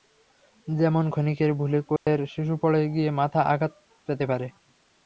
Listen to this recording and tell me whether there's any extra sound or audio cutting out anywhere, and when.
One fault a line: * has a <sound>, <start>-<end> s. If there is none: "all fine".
* has a dropout, 2.0-2.1 s